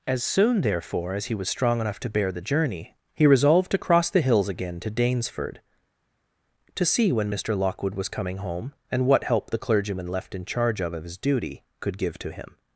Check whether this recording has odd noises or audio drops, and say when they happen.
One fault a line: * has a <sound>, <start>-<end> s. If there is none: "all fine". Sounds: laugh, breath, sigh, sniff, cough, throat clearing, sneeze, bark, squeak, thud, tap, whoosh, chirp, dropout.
all fine